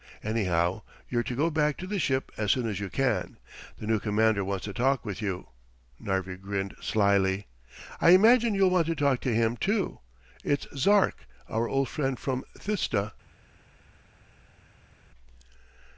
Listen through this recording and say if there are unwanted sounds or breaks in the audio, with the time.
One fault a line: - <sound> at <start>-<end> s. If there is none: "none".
none